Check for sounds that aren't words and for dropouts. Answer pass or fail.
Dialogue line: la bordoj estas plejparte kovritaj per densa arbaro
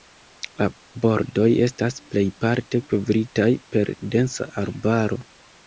pass